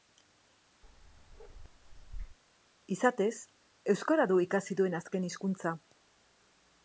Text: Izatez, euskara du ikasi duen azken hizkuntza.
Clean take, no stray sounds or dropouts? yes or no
no